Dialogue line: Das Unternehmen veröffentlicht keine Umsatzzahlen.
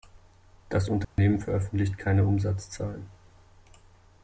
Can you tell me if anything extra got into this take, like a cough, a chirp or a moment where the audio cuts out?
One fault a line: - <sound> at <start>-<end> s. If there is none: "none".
- dropout at 1.0-1.2 s